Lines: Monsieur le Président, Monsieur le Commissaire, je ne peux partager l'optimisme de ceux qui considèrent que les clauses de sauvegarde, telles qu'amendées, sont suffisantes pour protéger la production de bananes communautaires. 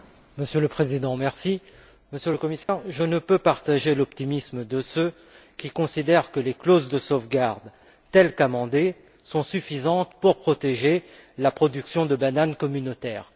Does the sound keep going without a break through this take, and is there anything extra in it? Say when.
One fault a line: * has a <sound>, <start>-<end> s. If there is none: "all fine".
* has a dropout, 2.6-2.7 s